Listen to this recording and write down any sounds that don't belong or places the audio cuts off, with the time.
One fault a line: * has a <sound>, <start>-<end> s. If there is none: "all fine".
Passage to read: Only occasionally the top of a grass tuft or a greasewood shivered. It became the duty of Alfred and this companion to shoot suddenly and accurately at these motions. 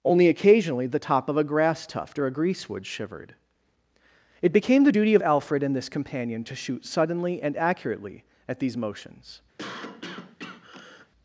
* has a cough, 9.6-11.1 s